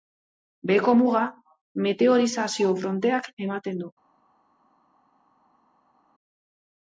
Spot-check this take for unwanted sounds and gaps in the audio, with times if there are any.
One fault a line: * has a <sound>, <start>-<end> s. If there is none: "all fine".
all fine